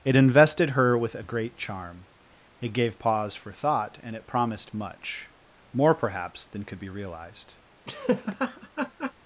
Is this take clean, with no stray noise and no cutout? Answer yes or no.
no